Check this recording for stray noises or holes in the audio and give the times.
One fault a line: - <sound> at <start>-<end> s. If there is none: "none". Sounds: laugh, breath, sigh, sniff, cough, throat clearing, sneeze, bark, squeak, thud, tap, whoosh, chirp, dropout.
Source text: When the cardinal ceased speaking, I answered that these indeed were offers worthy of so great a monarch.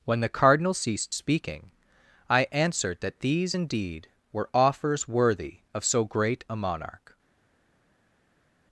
none